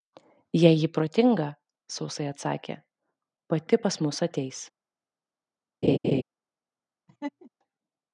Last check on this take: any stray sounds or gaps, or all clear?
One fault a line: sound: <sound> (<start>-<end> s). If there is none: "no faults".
sound: laugh (5.8-6.2 s)
sound: laugh (7.1-7.5 s)